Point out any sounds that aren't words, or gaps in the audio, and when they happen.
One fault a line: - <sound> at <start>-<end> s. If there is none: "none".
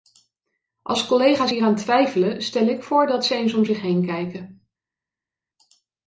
none